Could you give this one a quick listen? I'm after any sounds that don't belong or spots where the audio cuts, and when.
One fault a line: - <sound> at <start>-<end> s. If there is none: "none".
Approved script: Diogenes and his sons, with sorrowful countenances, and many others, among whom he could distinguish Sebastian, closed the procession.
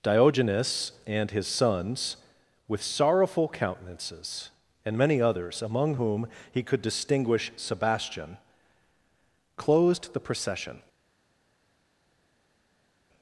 none